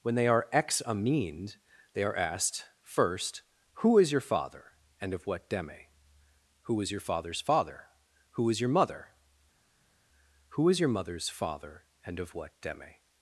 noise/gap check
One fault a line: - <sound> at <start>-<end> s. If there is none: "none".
none